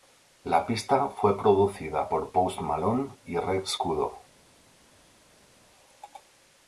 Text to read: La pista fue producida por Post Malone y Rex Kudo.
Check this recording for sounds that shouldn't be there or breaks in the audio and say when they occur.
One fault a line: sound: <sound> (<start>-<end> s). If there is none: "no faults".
no faults